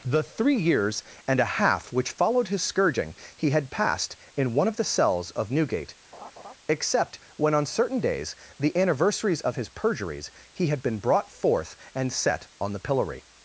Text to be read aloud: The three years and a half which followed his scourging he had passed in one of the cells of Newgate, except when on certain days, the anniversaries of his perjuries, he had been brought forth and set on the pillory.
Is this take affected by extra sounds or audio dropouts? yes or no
yes